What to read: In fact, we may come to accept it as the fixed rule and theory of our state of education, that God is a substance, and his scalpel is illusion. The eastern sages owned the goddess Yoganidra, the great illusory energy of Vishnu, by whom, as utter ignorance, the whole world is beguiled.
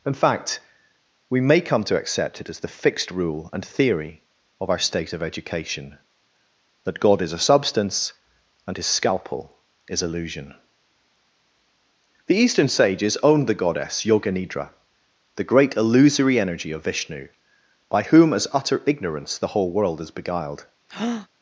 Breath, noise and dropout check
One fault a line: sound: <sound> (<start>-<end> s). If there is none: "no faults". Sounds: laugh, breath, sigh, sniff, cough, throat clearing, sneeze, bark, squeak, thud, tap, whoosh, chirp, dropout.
sound: breath (20.9-21.3 s)